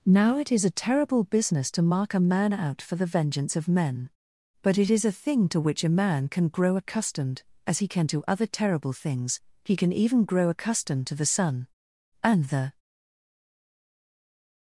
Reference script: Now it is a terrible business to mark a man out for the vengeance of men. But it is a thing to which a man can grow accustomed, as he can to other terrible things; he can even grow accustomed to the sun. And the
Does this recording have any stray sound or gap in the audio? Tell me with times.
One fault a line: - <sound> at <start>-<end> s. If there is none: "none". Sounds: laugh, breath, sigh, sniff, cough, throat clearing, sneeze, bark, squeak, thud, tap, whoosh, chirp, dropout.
none